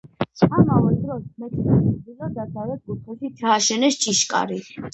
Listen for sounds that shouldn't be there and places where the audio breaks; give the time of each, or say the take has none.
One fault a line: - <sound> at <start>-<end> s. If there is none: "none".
none